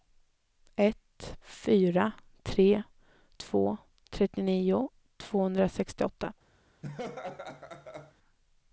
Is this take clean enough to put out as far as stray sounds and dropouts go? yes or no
no